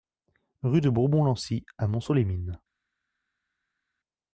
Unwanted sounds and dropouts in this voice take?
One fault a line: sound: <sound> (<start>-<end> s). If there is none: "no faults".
no faults